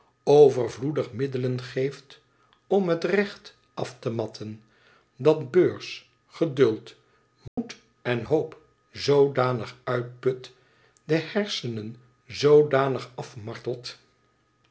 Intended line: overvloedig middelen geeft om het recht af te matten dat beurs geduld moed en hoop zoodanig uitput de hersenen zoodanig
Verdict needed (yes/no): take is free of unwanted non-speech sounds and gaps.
no